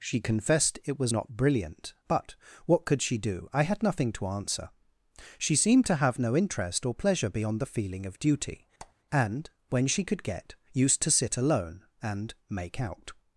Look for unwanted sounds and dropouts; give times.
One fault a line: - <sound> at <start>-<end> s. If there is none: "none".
- squeak at 8.8-8.9 s